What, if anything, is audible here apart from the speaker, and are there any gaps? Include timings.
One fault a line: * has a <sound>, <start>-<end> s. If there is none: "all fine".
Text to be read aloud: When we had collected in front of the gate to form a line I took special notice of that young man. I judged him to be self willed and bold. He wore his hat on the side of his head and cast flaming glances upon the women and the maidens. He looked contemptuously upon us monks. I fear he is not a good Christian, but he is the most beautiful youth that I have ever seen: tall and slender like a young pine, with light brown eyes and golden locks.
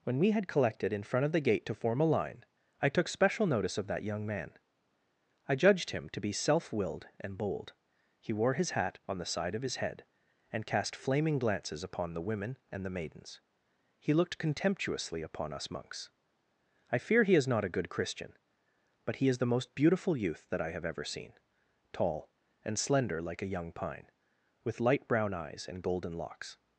all fine